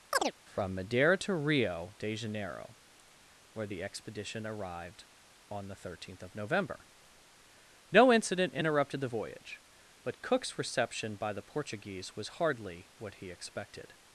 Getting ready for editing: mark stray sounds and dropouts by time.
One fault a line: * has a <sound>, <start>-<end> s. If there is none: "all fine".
* has a chirp, 0.1-0.3 s